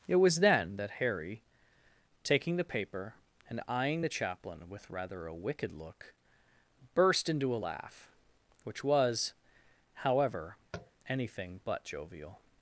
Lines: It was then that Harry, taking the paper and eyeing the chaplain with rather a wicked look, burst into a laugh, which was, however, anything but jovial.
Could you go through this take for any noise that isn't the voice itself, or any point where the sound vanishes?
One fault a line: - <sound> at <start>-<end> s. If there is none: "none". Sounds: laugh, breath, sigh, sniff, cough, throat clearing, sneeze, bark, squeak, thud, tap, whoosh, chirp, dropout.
- tap at 10.7-10.9 s